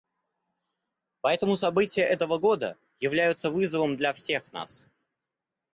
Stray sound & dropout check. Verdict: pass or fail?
pass